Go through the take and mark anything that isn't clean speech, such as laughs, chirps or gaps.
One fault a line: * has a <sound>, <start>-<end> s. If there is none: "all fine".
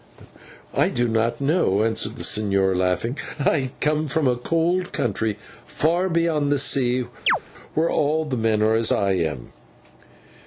* has a chirp, 7.3-7.4 s